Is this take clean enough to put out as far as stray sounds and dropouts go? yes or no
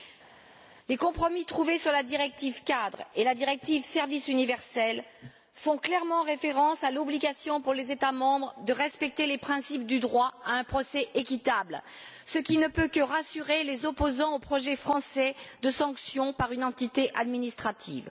yes